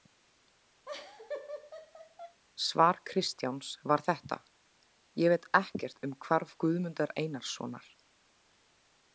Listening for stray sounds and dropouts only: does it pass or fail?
fail